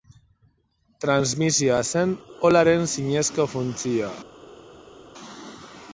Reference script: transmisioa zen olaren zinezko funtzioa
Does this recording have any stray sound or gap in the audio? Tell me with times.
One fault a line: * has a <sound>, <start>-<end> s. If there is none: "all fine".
all fine